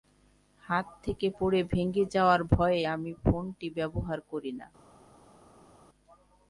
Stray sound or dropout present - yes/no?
no